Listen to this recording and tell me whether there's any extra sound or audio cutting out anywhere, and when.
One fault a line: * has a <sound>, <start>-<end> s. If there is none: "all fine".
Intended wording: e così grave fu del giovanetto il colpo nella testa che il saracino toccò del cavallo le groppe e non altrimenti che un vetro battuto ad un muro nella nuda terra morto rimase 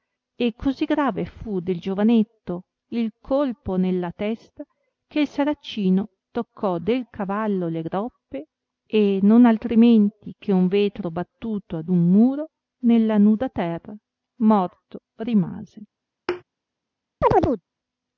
* has a thud, 16.3-16.4 s
* has a chirp, 17.2-17.6 s